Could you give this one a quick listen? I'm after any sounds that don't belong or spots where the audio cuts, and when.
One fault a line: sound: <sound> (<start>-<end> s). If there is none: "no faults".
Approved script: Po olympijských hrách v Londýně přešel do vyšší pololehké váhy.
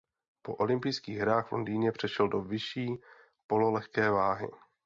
no faults